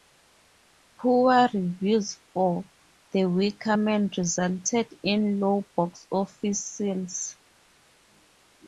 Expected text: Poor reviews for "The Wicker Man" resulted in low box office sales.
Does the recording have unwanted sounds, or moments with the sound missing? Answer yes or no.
no